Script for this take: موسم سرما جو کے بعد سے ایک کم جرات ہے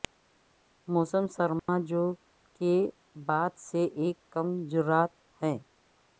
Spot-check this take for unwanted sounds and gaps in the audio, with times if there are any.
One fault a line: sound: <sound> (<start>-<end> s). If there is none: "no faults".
sound: dropout (1.6-1.7 s)